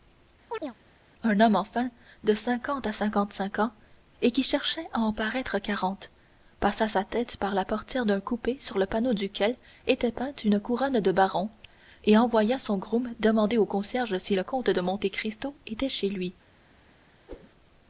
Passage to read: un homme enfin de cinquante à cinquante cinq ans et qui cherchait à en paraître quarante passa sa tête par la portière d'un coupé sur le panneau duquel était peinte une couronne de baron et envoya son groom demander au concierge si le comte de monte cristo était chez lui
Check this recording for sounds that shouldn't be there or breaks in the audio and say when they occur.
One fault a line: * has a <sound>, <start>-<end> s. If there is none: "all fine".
* has a chirp, 0.5-0.8 s
* has a whoosh, 17.3-17.5 s